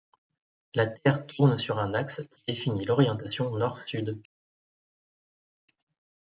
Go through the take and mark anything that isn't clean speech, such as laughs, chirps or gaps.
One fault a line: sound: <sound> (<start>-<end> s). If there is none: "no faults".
no faults